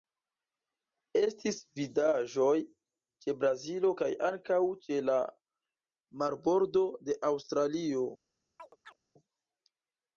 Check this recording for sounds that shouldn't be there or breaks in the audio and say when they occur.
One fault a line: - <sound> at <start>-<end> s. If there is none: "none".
- chirp at 8.6-9.0 s